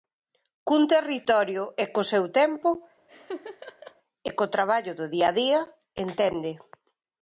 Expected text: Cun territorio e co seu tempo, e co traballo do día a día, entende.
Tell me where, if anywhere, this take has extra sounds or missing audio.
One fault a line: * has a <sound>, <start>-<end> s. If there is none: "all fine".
* has a laugh, 3.1-4.0 s